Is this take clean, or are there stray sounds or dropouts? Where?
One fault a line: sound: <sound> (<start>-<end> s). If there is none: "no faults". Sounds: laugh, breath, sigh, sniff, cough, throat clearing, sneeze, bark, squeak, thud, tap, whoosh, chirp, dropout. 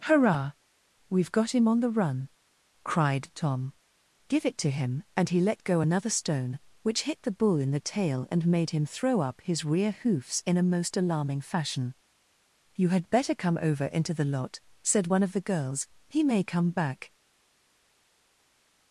no faults